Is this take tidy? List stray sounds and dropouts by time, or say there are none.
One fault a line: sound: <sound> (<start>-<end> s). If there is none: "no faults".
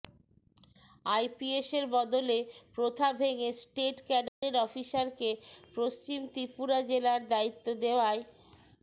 sound: dropout (4.3-4.4 s)